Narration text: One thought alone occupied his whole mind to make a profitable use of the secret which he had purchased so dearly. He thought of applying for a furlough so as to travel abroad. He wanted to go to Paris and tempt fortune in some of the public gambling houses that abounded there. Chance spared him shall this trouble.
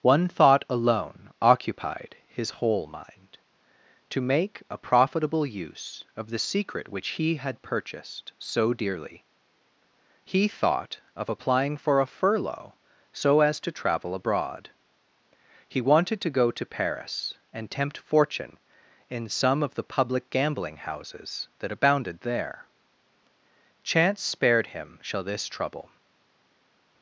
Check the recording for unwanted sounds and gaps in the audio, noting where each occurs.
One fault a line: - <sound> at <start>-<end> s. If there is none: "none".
none